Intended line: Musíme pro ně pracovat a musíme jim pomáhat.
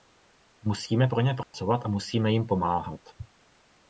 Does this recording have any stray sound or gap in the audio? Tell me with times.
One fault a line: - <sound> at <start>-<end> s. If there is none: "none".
- dropout at 1.4-1.5 s